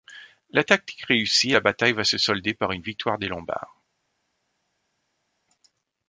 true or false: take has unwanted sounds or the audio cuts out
false